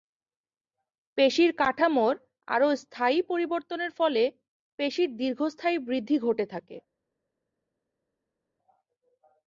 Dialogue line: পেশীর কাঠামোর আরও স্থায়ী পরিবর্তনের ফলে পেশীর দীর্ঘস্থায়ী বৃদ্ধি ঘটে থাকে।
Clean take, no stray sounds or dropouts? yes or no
yes